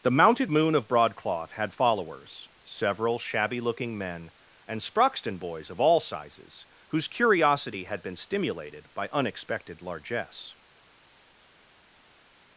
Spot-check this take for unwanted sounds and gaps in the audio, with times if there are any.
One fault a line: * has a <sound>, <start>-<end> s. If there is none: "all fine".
all fine